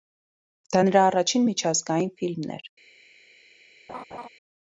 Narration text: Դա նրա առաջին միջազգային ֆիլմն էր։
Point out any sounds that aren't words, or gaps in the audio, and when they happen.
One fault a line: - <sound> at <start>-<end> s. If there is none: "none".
- laugh at 3.9-4.3 s